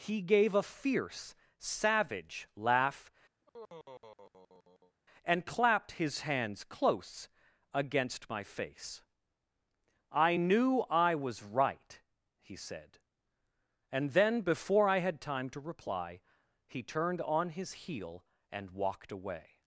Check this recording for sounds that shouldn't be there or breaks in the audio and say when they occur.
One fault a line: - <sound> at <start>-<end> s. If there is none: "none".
- sigh at 3.4-5.0 s